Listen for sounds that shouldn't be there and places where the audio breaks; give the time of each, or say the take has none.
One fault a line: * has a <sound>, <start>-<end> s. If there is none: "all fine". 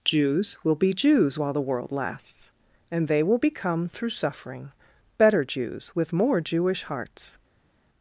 all fine